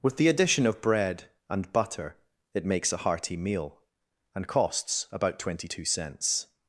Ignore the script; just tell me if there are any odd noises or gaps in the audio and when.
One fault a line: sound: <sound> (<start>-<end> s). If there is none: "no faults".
no faults